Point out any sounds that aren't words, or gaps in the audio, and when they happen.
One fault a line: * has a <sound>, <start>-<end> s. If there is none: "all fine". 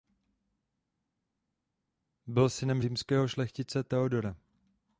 all fine